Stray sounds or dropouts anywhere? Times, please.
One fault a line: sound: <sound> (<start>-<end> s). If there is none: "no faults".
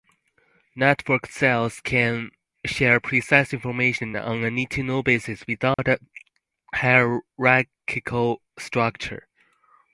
sound: dropout (5.7-5.8 s)